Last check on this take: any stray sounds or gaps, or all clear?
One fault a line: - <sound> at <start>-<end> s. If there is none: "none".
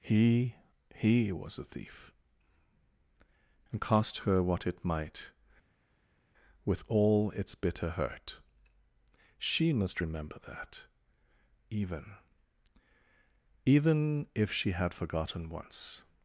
none